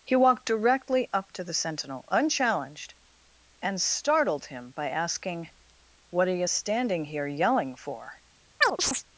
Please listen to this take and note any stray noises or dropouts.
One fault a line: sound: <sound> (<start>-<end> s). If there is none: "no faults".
sound: chirp (8.6-9.0 s)